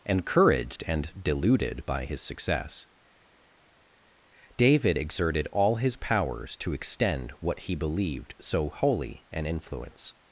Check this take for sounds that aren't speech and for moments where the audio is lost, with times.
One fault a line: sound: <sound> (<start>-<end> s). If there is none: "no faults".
no faults